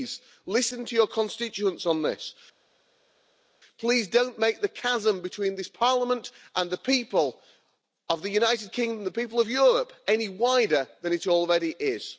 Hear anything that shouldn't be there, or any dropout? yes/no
no